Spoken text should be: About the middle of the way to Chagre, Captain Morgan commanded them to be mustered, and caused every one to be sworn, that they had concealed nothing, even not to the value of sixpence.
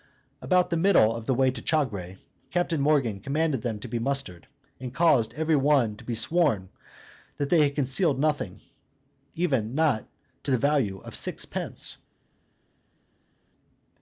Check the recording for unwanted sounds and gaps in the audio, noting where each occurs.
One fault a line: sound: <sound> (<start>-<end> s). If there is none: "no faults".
no faults